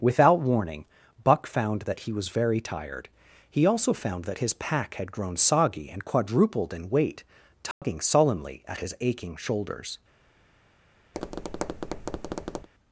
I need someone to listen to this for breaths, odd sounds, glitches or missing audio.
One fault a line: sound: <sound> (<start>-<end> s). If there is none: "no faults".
sound: dropout (7.7-7.8 s)
sound: tap (11.1-12.7 s)